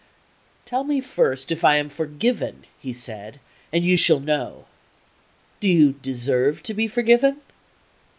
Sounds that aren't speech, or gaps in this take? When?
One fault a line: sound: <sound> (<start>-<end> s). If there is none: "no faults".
no faults